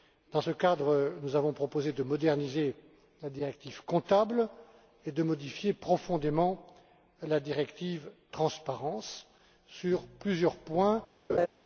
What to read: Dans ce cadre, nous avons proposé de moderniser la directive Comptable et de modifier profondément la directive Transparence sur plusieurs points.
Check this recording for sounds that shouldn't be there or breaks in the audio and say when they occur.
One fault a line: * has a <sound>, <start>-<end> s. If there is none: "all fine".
* has a laugh, 11.3-11.5 s